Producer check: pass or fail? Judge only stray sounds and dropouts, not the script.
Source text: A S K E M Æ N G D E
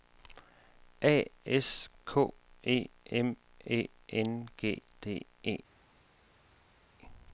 pass